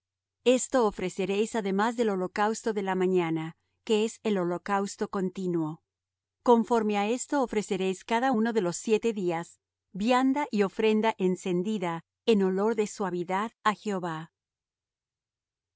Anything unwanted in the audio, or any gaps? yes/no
no